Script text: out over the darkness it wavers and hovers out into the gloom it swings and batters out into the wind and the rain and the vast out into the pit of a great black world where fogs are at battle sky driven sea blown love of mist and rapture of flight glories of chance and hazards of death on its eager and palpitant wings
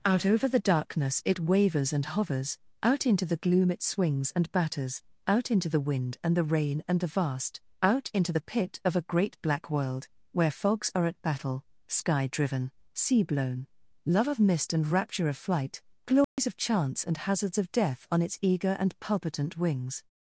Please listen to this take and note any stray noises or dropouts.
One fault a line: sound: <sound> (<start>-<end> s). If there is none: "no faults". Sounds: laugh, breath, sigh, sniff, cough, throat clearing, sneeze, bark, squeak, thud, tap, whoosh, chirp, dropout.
sound: dropout (16.2-16.4 s)